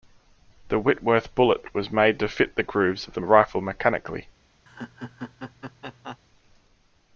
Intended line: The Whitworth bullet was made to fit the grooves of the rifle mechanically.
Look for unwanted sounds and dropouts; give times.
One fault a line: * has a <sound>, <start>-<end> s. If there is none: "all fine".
* has a laugh, 4.7-6.2 s